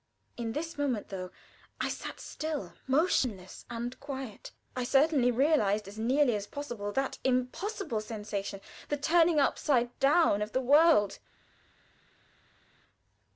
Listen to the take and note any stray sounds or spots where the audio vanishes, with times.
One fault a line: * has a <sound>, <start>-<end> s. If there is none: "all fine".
all fine